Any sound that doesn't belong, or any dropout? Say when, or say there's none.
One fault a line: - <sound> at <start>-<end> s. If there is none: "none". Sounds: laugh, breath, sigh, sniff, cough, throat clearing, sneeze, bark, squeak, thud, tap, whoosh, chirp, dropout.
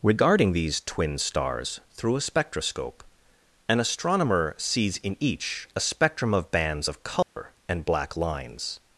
- dropout at 7.2-7.4 s